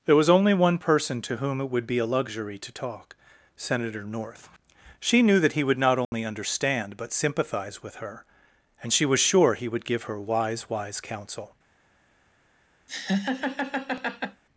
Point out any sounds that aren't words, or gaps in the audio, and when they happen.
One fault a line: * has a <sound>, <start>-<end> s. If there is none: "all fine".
* has a dropout, 6.0-6.1 s
* has a laugh, 12.9-14.4 s